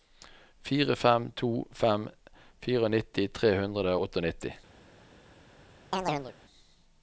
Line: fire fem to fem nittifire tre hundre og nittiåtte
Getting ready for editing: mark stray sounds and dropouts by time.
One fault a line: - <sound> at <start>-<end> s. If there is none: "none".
- chirp at 5.9-6.3 s